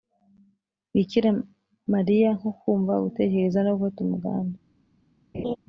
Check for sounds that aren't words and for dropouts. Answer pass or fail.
fail